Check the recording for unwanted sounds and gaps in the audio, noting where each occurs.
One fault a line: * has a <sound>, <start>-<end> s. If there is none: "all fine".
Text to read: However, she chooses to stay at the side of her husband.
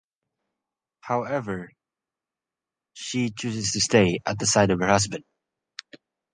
all fine